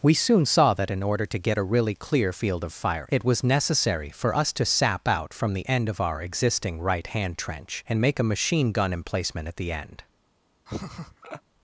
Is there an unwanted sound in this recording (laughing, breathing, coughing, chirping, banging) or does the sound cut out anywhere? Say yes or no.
yes